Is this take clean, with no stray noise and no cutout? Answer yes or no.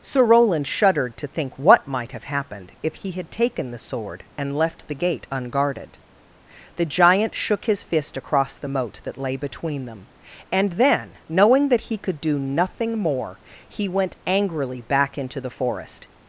yes